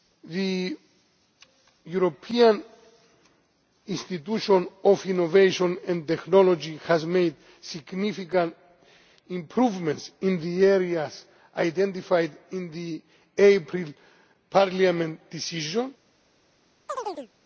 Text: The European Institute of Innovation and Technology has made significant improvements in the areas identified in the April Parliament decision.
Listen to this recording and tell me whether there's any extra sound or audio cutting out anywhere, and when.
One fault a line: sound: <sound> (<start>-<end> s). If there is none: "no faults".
sound: chirp (16.9-17.3 s)